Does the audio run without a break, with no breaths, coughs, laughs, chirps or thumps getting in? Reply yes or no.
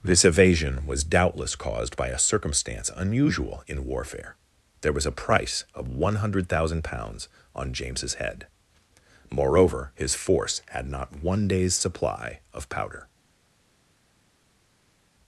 yes